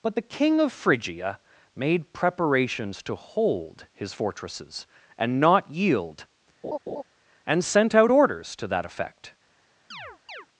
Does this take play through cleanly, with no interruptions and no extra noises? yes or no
no